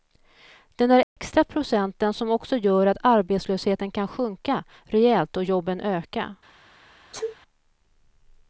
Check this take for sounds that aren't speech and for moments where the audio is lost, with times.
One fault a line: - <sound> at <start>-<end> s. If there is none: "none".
- dropout at 1.0-1.2 s
- sneeze at 7.1-7.3 s